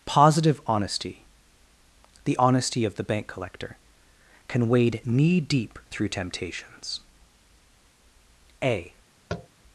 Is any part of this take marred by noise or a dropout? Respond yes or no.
yes